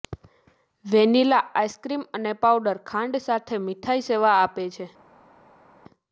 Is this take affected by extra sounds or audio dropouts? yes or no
no